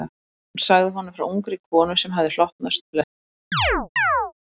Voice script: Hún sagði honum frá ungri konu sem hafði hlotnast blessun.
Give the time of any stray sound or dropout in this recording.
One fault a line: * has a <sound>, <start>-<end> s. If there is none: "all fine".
* has a chirp, 3.5-4.3 s